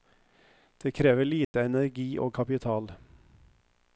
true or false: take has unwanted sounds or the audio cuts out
true